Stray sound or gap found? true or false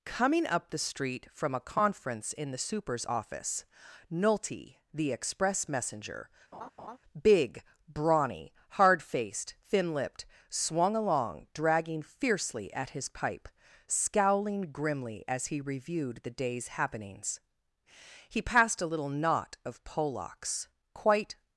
true